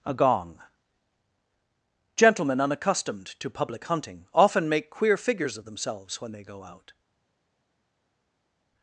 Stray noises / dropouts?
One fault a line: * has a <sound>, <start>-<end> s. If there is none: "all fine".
all fine